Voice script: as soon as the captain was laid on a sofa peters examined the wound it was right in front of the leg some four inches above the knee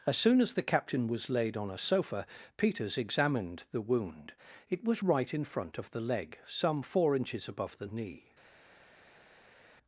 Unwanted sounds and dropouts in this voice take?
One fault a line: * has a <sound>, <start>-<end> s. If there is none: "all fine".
all fine